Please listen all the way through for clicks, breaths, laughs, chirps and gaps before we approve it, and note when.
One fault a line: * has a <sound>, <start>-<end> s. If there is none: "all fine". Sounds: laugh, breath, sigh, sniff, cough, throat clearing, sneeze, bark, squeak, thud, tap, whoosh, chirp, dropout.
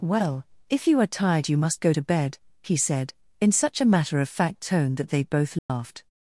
* has a dropout, 5.6-5.7 s